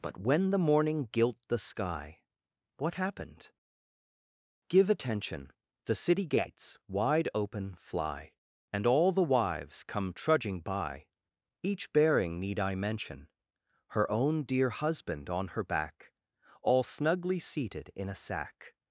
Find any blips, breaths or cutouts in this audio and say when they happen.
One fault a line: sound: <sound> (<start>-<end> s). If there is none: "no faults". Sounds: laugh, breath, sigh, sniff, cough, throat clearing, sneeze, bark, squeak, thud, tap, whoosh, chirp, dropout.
no faults